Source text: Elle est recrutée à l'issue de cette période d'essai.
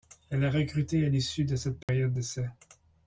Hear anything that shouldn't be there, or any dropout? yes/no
yes